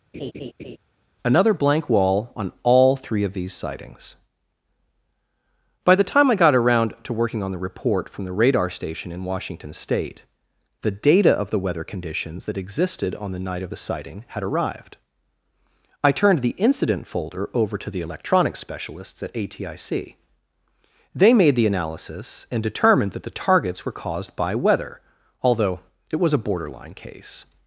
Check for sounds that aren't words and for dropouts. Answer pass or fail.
fail